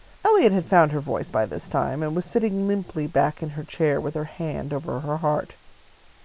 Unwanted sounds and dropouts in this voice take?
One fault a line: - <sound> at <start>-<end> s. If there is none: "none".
none